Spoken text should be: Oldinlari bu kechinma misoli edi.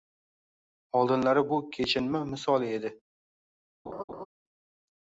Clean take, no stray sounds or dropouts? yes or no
no